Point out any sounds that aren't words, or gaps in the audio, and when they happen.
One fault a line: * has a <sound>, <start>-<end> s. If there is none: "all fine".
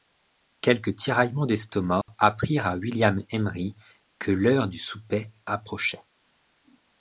* has a dropout, 2.0-2.1 s